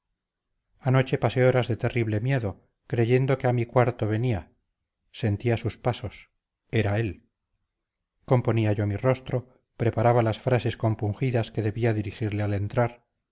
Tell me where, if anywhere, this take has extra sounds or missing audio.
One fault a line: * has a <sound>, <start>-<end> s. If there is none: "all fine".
all fine